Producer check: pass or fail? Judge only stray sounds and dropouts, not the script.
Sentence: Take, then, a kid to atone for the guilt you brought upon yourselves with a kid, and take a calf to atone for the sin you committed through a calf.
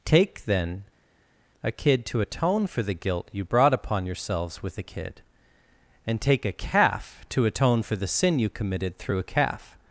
pass